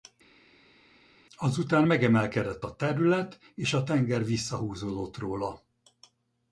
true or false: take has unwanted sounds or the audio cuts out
false